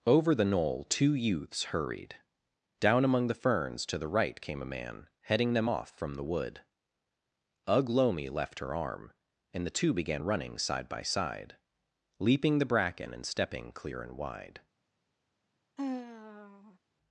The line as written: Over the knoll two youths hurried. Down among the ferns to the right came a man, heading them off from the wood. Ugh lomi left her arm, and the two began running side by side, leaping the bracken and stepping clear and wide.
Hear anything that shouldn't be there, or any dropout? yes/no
yes